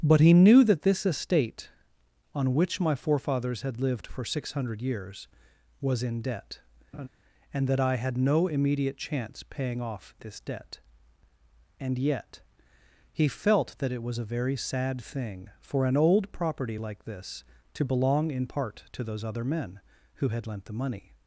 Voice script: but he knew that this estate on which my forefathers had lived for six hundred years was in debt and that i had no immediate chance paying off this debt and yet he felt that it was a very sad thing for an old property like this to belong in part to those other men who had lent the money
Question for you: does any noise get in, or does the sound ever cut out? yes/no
yes